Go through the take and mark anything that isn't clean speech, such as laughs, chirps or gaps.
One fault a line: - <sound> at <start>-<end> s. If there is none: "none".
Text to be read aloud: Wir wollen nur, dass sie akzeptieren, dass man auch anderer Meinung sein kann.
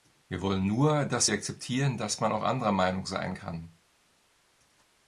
none